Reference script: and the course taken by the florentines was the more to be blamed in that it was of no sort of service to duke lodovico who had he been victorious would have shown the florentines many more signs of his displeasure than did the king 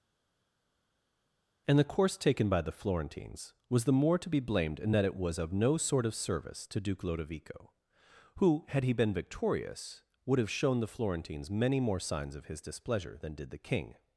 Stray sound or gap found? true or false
false